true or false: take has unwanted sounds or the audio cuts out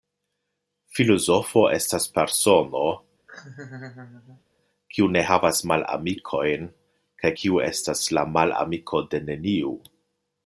true